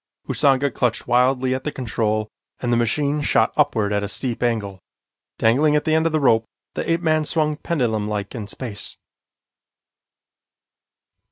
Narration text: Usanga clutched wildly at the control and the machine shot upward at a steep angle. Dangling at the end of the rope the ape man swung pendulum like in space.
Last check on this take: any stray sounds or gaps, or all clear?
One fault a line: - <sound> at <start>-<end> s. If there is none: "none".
none